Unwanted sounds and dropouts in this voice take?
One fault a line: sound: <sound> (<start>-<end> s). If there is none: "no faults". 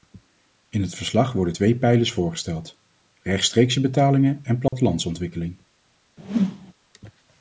sound: dropout (4.7-4.7 s)
sound: whoosh (6.2-6.7 s)